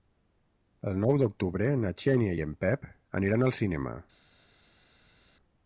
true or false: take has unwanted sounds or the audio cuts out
false